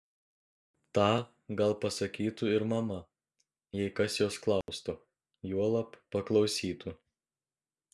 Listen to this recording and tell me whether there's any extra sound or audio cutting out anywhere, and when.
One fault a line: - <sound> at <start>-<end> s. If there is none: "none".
- dropout at 4.6-4.7 s